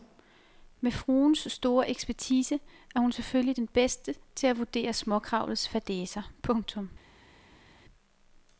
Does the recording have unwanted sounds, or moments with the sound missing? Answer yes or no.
no